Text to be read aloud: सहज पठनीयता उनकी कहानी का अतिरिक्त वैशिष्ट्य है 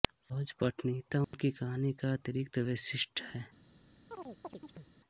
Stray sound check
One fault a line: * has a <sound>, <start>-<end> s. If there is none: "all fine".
* has a dropout, 1.2-1.3 s
* has a chirp, 4.1-4.9 s